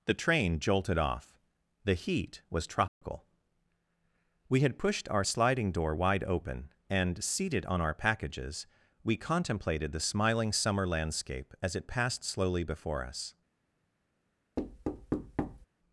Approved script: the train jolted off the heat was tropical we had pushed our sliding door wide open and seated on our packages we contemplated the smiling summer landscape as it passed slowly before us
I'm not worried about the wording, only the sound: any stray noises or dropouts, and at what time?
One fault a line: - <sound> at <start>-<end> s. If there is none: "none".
- dropout at 2.9-3.0 s
- thud at 14.6-15.7 s